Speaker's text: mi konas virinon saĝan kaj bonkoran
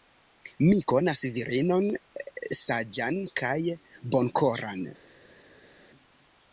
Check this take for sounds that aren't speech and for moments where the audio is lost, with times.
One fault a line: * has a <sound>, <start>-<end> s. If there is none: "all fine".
all fine